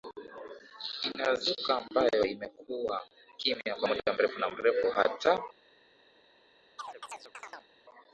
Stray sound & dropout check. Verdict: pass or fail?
fail